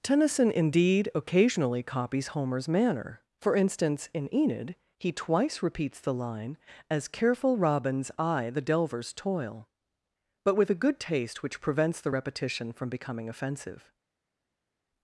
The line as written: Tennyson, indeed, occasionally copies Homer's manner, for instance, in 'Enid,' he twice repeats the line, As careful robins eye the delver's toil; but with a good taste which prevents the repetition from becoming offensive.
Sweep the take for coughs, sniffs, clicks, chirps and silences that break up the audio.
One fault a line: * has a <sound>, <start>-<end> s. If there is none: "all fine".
all fine